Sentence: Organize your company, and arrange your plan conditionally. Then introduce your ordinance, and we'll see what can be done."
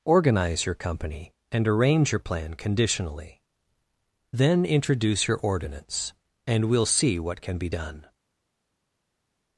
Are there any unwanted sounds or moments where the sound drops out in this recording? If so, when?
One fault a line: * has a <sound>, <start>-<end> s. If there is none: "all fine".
all fine